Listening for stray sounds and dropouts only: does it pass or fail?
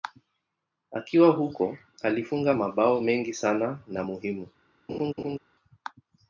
fail